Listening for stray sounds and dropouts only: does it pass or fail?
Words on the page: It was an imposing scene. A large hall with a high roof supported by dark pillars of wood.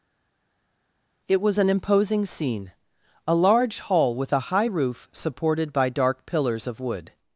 pass